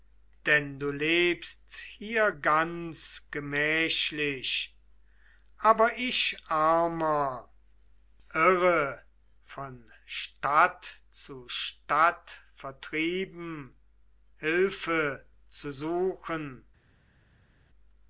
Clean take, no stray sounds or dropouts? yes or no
yes